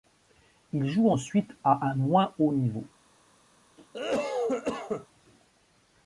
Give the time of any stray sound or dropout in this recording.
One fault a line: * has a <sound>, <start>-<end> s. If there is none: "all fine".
* has a cough, 3.8-5.1 s